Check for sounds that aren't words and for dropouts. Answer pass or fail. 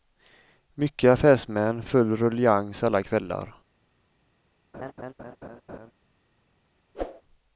fail